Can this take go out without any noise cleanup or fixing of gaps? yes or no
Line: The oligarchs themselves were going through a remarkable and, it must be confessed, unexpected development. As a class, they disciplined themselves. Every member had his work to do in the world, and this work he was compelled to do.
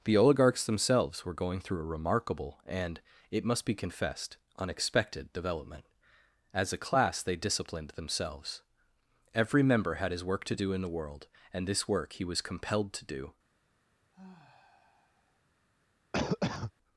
no